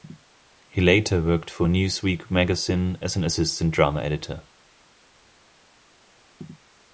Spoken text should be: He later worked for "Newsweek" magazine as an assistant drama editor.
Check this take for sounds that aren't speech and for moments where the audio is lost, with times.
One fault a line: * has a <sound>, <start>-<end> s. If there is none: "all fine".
all fine